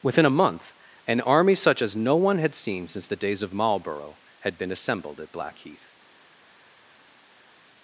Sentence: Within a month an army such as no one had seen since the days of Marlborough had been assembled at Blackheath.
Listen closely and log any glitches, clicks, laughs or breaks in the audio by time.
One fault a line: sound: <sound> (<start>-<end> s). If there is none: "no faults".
no faults